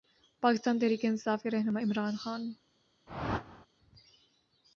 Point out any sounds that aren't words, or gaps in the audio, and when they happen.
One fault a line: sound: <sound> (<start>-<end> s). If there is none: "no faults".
sound: whoosh (3.1-3.7 s)